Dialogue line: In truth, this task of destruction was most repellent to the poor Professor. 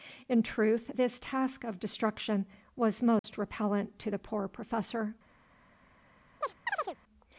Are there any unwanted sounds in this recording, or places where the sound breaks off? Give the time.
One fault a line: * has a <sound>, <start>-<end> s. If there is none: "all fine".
* has a dropout, 3.2-3.2 s
* has a chirp, 6.4-7.0 s